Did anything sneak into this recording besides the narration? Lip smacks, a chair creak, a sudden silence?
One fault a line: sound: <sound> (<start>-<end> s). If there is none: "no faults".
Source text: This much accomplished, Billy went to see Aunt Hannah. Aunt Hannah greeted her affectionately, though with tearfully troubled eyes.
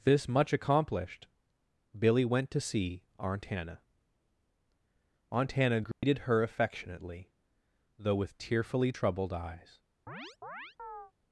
sound: dropout (5.9-6.0 s)
sound: chirp (10.1-11.1 s)